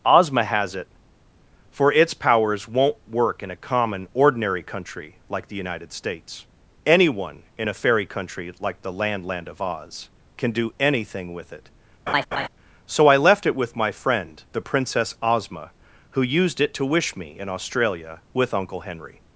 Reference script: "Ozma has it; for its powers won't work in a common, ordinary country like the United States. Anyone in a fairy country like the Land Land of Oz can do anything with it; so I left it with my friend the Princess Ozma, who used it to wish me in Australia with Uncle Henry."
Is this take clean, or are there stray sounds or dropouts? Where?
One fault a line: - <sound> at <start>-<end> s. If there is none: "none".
- laugh at 12.1-12.5 s